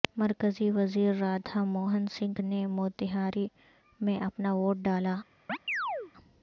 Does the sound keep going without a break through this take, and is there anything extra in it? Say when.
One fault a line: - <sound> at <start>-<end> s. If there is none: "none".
- chirp at 5.5-6.1 s